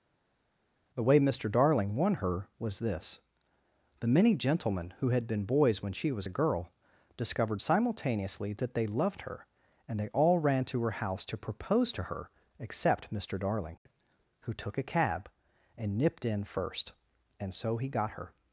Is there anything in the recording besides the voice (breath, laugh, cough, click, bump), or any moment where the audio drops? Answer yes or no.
no